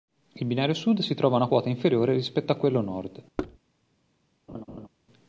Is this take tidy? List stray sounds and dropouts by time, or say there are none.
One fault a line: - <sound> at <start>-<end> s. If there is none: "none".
- thud at 3.4-3.6 s
- laugh at 4.5-4.9 s